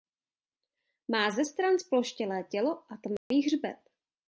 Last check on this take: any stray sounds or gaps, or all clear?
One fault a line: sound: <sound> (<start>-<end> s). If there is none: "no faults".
sound: dropout (3.2-3.3 s)